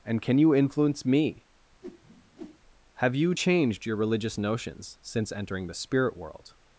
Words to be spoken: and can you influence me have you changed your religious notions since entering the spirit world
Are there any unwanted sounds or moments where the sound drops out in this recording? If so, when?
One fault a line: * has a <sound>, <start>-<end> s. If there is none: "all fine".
* has a whoosh, 1.8-2.6 s